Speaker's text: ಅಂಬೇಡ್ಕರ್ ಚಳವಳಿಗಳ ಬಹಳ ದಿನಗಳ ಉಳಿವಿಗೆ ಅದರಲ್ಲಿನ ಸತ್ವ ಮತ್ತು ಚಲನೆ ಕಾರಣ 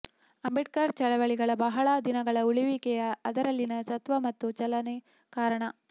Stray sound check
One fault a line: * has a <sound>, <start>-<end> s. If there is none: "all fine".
all fine